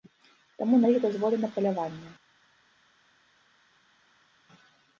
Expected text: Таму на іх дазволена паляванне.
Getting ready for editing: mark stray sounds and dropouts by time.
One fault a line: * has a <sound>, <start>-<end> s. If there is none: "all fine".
all fine